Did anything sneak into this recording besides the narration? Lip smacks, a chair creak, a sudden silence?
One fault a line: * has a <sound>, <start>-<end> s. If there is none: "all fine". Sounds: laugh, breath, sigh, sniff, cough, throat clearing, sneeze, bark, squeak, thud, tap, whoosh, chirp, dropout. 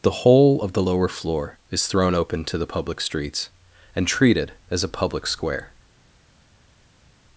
all fine